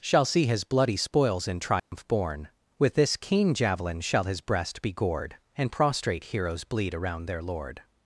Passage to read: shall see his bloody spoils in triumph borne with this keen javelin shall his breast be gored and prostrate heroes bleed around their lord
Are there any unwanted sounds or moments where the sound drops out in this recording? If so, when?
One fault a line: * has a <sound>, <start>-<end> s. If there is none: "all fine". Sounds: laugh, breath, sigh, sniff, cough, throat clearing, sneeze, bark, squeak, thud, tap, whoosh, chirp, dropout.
* has a dropout, 1.8-1.9 s